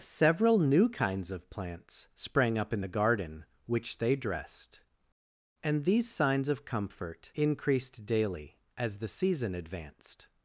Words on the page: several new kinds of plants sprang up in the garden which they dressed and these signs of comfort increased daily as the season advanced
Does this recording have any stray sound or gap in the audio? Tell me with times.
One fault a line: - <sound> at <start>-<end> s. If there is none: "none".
none